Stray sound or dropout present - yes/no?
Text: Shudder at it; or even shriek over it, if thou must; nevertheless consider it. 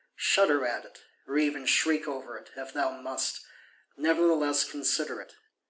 no